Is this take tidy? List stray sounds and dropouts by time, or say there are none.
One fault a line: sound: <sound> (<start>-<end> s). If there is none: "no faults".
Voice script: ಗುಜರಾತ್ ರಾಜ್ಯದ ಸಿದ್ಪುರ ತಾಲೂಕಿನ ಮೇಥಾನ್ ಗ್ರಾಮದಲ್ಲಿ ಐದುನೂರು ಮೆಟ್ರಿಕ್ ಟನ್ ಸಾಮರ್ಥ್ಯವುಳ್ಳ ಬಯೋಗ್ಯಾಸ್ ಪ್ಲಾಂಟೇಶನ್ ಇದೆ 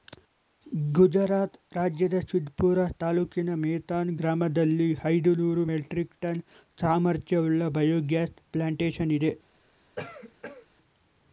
sound: cough (10.0-10.7 s)